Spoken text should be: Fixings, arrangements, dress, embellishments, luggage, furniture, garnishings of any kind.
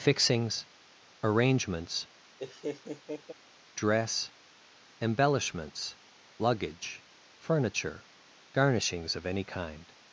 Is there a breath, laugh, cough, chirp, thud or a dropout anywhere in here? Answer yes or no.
yes